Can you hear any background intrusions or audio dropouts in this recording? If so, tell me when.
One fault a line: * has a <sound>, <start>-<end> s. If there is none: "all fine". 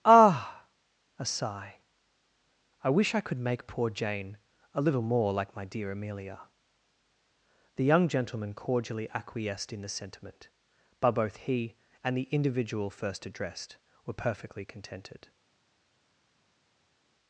all fine